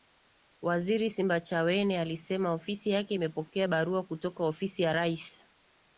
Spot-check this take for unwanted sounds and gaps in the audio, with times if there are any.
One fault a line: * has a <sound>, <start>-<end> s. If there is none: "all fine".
all fine